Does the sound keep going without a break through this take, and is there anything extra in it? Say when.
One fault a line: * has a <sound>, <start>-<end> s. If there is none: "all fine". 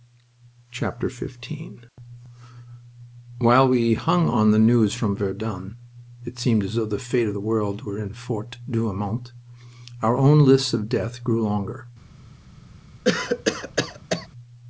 * has a cough, 13.0-14.3 s